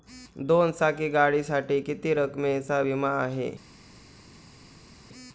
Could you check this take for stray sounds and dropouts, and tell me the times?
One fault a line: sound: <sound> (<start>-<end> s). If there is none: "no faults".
no faults